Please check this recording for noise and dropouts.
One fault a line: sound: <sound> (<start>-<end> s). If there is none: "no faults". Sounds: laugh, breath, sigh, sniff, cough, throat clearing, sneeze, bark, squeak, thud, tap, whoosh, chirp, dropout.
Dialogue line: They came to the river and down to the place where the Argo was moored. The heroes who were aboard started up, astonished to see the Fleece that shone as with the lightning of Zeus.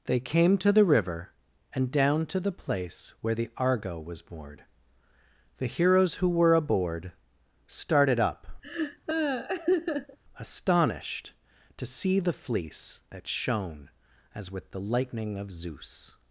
sound: laugh (8.6-10.2 s)